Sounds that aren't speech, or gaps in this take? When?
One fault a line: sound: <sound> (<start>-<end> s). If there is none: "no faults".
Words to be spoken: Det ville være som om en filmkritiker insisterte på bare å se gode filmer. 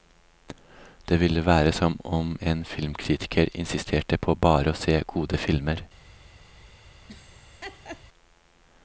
sound: laugh (7.1-8.0 s)